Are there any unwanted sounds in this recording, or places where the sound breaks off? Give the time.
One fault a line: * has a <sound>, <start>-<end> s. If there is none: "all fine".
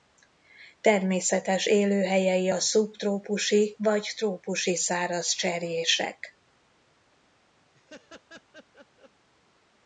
* has a laugh, 7.7-9.1 s